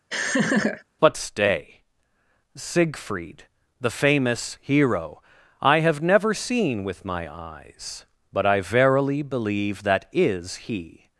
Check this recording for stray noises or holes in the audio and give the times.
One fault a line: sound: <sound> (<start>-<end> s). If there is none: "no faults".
sound: laugh (0.1-0.8 s)